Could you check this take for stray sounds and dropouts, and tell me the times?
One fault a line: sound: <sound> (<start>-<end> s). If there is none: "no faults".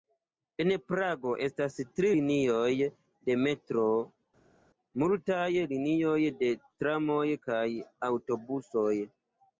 no faults